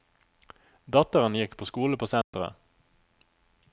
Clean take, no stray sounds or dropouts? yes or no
no